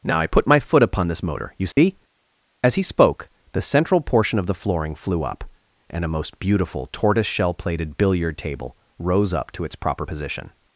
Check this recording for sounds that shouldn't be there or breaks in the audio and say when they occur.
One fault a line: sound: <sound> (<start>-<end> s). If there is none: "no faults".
sound: dropout (1.7-1.8 s)